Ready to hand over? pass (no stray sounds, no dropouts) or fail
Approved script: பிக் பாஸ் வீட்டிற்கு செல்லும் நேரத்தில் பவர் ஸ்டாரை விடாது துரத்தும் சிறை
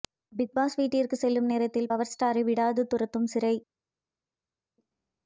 pass